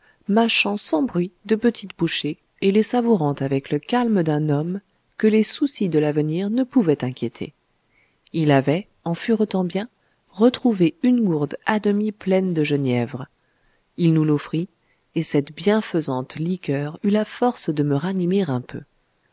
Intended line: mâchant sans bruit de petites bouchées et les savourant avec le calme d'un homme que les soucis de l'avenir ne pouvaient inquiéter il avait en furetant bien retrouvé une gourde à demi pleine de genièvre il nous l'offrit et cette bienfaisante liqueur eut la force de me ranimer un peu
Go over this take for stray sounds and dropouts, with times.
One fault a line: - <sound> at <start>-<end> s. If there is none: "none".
none